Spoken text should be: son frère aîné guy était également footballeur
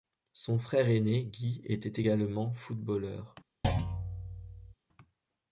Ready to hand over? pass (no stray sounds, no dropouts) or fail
fail